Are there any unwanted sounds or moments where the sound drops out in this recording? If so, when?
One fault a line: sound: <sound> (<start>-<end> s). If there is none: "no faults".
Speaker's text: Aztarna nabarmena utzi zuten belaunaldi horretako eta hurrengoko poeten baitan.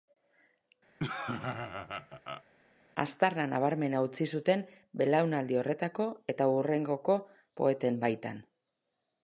sound: laugh (1.0-2.4 s)